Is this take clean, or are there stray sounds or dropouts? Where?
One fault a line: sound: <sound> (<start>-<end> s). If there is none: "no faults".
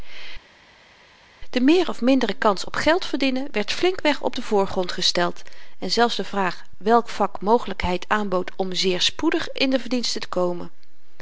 no faults